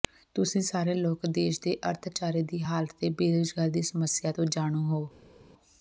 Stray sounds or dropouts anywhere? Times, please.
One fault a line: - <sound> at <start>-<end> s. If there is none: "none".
none